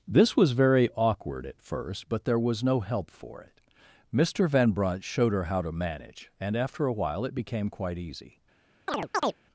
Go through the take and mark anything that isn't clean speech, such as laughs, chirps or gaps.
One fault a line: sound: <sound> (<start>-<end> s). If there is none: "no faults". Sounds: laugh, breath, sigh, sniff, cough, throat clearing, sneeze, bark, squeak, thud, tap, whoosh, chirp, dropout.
sound: chirp (8.9-9.4 s)